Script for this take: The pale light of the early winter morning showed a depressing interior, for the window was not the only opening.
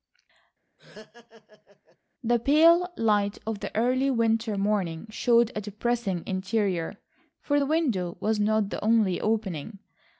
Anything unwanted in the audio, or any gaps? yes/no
yes